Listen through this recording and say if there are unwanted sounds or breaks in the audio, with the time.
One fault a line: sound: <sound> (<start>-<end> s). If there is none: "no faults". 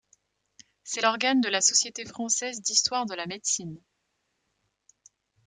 no faults